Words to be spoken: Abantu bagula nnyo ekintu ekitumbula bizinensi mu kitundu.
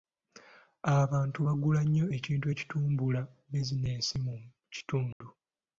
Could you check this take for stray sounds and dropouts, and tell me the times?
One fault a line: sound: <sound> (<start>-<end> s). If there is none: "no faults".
sound: dropout (5.1-5.2 s)